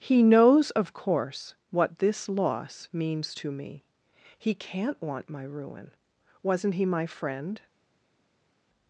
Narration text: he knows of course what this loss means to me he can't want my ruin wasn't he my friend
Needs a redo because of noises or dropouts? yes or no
no